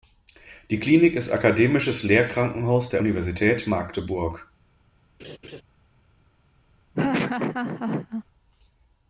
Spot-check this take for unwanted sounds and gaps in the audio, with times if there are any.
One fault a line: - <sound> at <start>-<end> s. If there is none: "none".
- laugh at 5.2-5.6 s
- laugh at 6.9-8.2 s